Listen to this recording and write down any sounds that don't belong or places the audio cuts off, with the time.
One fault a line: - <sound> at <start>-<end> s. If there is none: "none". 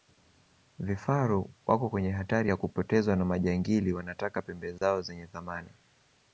- dropout at 4.8-4.8 s